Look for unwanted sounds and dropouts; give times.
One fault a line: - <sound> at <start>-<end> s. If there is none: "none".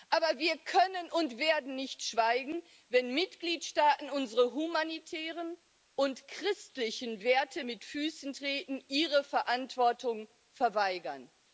none